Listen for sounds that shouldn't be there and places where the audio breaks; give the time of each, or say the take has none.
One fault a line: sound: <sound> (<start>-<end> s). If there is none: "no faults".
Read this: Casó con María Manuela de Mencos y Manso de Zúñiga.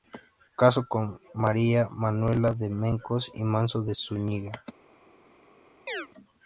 sound: chirp (5.9-6.1 s)